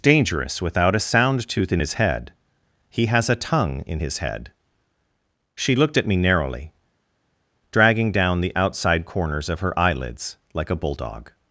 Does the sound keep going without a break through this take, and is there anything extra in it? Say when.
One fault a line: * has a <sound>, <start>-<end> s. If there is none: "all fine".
all fine